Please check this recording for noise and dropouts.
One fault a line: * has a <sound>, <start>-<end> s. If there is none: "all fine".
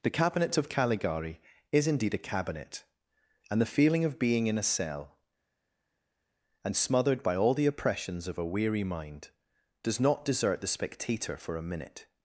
all fine